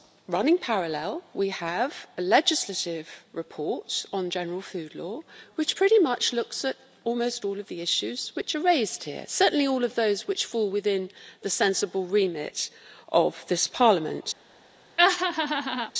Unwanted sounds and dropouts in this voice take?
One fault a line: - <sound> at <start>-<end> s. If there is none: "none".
- laugh at 15.0-15.9 s